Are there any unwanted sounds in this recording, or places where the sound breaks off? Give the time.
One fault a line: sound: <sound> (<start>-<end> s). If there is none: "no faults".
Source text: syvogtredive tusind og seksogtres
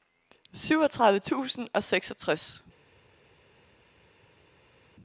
no faults